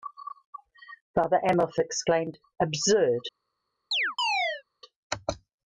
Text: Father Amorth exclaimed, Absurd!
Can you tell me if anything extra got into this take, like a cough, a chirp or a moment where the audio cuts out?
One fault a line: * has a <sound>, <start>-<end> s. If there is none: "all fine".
* has a chirp, 3.9-4.6 s